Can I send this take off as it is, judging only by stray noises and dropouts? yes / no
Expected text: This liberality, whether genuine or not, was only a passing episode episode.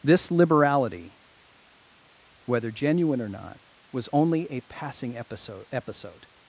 yes